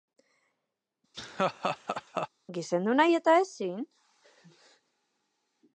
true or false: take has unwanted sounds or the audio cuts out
true